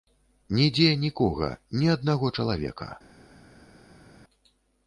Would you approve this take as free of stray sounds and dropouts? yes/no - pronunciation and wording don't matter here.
yes